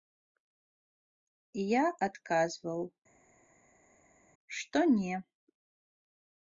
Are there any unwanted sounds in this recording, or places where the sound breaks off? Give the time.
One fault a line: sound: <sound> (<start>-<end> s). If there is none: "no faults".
no faults